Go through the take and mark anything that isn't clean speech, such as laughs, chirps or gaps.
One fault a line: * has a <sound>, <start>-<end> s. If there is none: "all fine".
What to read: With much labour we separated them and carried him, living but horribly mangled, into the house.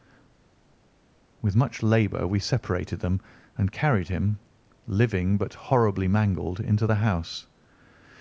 all fine